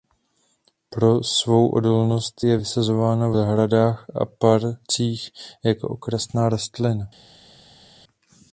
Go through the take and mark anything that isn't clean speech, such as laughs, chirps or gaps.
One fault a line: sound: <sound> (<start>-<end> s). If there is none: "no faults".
no faults